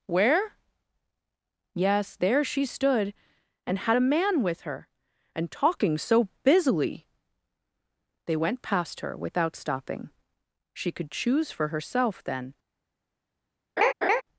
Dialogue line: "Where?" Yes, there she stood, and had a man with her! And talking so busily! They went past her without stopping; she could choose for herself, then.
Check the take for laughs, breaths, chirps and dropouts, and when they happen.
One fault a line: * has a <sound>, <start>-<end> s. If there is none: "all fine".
* has a laugh, 13.8-14.2 s